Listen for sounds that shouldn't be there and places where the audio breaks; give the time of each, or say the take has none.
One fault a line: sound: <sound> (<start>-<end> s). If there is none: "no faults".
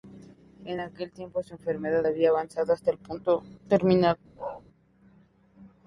sound: bark (4.4-4.6 s)